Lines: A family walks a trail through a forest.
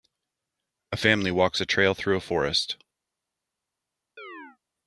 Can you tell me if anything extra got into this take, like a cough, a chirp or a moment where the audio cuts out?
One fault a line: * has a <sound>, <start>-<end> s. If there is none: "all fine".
* has a chirp, 4.2-4.6 s